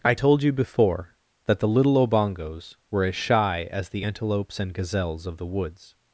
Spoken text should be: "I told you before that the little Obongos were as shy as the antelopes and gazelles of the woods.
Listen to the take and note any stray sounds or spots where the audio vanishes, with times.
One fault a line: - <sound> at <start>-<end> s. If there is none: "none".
none